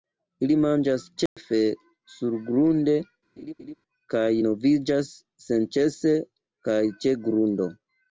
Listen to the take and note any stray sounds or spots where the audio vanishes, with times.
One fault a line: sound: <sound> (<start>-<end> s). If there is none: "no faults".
sound: dropout (1.3-1.4 s)
sound: laugh (3.4-3.7 s)